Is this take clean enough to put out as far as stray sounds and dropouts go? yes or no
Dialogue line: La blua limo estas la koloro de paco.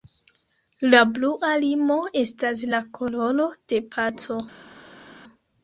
yes